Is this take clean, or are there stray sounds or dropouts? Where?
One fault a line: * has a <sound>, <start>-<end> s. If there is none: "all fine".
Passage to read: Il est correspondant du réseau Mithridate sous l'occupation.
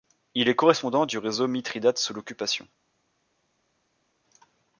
all fine